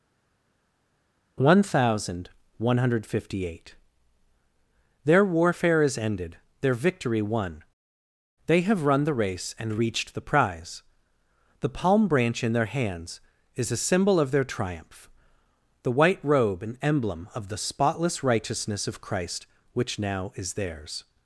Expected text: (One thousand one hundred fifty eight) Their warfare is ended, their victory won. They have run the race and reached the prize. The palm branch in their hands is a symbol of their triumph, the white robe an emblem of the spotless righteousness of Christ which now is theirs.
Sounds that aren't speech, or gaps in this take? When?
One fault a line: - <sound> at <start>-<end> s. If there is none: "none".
none